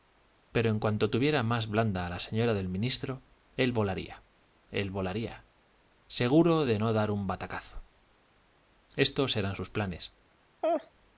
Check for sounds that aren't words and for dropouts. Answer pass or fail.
fail